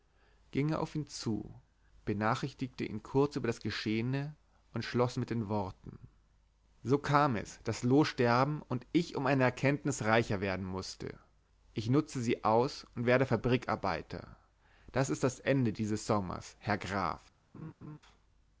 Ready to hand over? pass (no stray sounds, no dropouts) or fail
fail